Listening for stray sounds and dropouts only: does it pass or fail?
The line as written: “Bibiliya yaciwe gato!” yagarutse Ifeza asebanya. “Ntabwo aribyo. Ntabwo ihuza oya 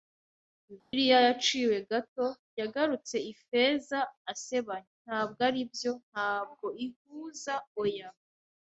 fail